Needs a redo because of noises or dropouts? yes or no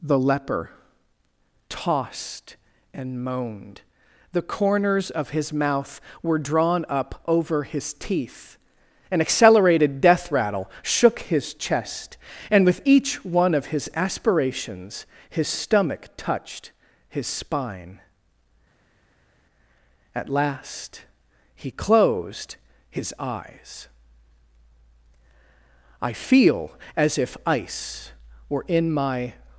no